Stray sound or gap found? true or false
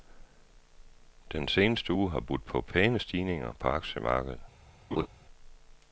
true